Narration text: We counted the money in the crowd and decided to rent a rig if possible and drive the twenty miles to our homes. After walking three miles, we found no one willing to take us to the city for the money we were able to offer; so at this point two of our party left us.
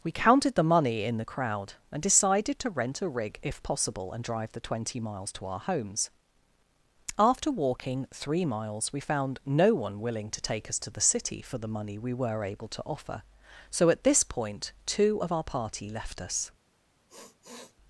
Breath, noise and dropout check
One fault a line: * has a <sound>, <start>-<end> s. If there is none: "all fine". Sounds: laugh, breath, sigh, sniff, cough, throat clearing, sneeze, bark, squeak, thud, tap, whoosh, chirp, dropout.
* has a sniff, 17.1-17.8 s